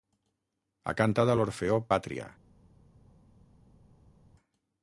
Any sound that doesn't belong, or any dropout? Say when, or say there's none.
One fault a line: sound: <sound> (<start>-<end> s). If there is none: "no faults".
no faults